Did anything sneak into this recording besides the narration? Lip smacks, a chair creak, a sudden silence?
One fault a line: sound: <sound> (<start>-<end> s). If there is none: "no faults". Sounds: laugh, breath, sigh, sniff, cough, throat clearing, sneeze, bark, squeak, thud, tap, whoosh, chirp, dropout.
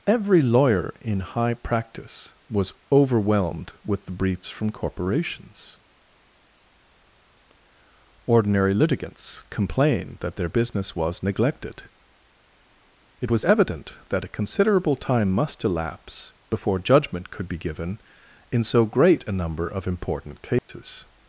sound: dropout (20.6-20.7 s)